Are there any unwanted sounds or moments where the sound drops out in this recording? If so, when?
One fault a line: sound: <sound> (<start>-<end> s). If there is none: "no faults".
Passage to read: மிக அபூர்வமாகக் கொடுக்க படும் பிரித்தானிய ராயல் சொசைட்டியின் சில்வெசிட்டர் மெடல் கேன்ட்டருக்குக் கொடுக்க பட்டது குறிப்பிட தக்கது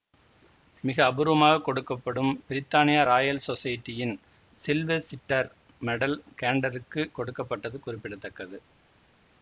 no faults